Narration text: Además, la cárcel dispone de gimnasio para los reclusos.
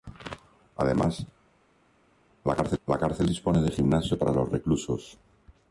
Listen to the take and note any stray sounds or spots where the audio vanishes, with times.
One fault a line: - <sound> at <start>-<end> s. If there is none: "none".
none